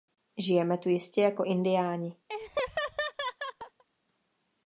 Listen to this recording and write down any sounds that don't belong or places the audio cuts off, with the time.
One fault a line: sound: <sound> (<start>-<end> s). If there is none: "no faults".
sound: laugh (2.3-3.8 s)